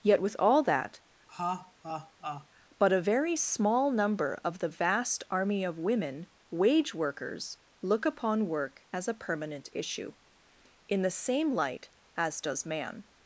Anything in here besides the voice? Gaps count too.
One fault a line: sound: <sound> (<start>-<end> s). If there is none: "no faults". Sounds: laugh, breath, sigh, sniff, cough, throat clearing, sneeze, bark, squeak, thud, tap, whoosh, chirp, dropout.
sound: laugh (1.3-2.5 s)